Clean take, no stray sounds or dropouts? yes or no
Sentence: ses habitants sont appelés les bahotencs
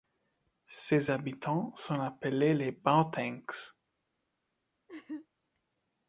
no